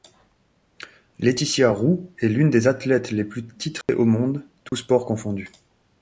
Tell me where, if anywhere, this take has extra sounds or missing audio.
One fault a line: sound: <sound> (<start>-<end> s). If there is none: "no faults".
sound: dropout (3.8-3.9 s)
sound: dropout (4.7-4.7 s)